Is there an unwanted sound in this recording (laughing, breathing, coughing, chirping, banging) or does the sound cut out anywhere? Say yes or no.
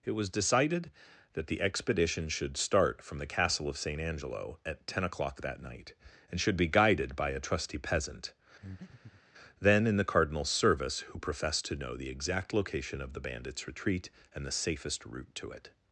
yes